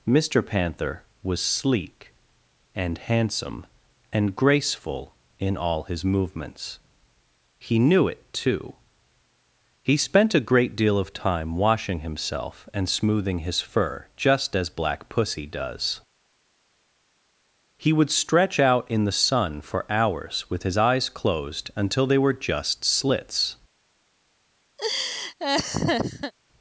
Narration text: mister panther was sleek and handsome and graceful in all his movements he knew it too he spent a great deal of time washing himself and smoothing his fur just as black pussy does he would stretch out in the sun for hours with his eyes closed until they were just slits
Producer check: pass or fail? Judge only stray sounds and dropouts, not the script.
fail